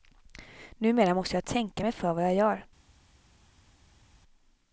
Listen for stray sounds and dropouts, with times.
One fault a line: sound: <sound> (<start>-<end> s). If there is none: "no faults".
no faults